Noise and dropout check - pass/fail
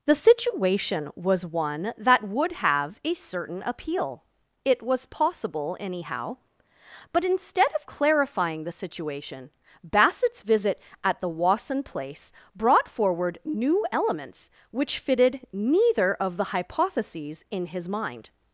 pass